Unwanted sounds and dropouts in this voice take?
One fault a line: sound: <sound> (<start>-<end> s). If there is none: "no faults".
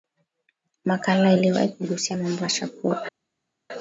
no faults